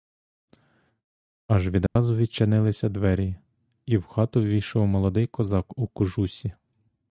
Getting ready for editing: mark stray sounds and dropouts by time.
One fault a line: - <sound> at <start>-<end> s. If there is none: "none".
- dropout at 1.9-2.0 s